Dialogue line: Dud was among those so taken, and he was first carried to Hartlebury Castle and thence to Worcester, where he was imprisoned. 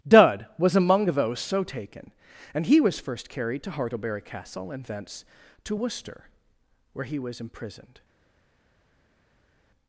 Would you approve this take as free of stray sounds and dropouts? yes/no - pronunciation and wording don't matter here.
yes